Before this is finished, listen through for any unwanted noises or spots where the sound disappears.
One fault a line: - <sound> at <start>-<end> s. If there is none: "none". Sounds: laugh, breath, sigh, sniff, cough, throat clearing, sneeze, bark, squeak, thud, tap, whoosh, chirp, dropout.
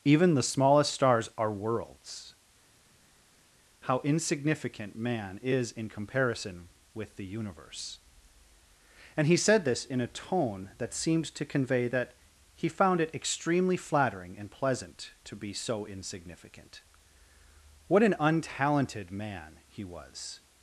none